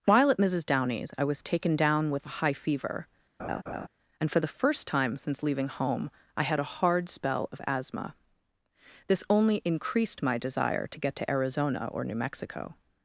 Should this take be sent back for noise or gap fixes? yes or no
yes